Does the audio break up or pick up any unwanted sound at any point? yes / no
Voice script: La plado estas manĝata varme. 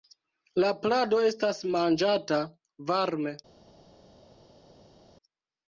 no